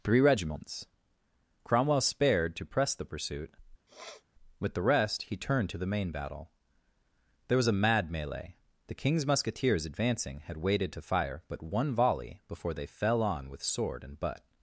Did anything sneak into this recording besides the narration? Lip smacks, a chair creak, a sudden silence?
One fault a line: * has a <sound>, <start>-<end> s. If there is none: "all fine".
* has a sniff, 3.9-4.2 s